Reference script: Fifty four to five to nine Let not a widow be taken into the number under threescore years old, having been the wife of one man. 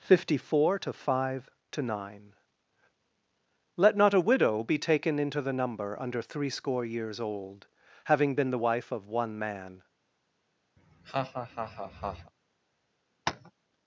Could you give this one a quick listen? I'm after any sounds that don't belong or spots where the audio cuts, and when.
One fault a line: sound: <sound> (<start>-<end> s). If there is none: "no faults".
sound: laugh (10.8-12.3 s)
sound: tap (13.3-13.5 s)